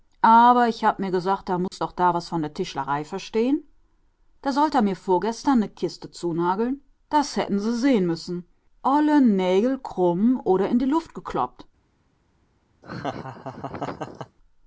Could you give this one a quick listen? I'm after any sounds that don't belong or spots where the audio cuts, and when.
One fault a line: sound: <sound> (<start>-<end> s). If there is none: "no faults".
sound: dropout (1.7-1.7 s)
sound: laugh (12.8-14.4 s)